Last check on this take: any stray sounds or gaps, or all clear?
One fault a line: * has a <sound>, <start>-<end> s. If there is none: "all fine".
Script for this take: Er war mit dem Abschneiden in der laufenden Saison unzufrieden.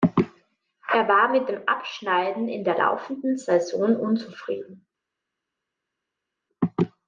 all fine